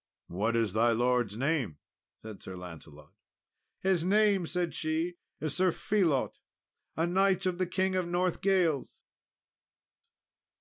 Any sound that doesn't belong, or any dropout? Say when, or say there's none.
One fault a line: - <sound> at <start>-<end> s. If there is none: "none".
none